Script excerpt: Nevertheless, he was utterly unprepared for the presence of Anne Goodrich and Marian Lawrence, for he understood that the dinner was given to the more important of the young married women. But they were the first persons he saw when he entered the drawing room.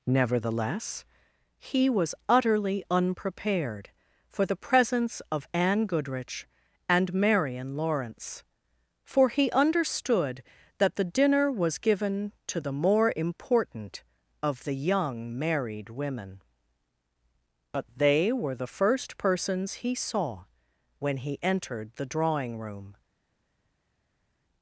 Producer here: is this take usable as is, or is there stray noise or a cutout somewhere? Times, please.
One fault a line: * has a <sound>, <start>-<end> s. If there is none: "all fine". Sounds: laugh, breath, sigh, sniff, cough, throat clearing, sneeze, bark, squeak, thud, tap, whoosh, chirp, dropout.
all fine